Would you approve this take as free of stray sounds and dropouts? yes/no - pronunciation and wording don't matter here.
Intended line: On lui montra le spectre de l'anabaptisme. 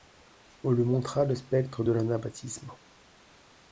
yes